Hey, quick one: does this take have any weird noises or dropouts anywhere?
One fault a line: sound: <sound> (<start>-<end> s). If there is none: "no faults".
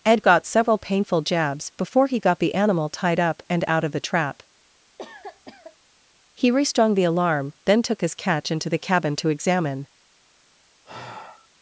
sound: cough (5.0-5.8 s)
sound: sigh (10.8-11.5 s)